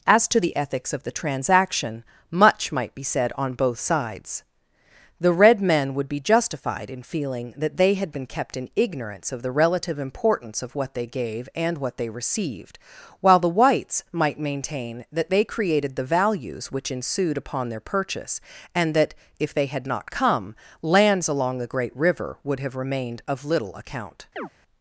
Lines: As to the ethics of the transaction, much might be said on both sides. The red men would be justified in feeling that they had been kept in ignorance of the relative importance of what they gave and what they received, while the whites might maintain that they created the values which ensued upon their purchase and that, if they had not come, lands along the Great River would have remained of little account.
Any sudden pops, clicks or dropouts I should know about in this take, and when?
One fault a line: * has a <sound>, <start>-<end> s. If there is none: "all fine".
* has a chirp, 24.4-24.5 s